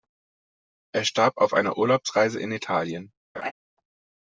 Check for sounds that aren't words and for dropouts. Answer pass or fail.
fail